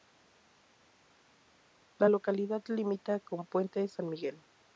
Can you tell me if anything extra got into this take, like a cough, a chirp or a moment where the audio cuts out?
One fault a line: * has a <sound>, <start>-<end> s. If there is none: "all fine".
all fine